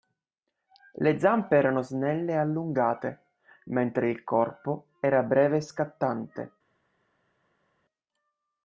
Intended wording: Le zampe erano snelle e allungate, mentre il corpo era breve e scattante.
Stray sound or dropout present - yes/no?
no